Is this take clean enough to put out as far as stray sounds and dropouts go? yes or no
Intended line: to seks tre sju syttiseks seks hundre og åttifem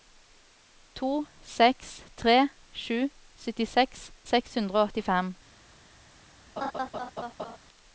no